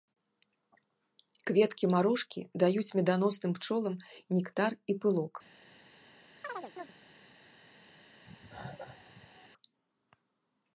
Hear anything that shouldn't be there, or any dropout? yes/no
yes